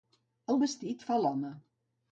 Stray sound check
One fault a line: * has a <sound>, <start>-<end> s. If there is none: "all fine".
all fine